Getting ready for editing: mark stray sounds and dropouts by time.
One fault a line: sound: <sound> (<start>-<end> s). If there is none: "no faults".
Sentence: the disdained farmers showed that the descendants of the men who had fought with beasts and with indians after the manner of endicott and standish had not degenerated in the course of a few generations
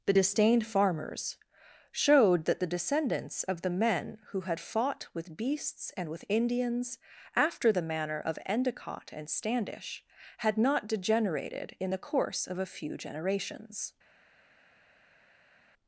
no faults